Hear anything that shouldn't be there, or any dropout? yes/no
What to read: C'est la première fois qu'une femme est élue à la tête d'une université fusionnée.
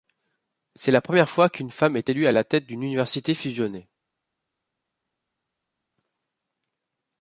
no